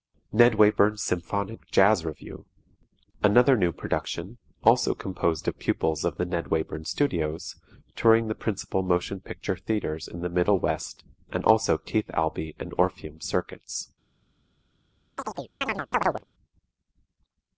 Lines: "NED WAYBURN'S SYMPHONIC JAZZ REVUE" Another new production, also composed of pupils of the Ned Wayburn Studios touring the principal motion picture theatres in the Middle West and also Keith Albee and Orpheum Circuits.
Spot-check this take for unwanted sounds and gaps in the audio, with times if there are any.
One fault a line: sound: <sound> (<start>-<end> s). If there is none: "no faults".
sound: chirp (15.2-16.2 s)